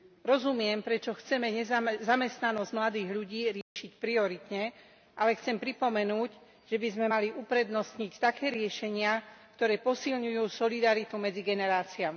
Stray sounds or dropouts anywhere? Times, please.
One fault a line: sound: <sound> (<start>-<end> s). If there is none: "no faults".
sound: dropout (3.6-3.8 s)